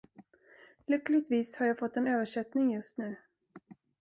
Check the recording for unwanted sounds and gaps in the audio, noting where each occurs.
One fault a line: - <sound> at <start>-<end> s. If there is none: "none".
none